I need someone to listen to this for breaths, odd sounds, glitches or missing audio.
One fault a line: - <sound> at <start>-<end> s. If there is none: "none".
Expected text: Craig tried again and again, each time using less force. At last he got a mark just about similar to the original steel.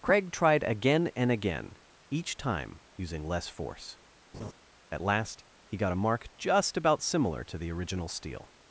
- laugh at 4.3-4.5 s